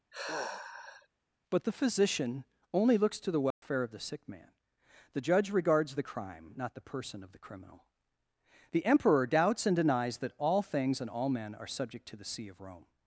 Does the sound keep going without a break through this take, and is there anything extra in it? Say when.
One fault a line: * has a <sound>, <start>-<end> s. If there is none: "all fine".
* has a sigh, 0.1-1.1 s
* has a dropout, 3.5-3.6 s